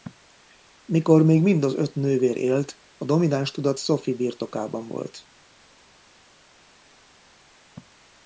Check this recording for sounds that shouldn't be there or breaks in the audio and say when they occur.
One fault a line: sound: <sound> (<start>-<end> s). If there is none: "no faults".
no faults